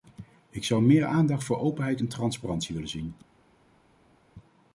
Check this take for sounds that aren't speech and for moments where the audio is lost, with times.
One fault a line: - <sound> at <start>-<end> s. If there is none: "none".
none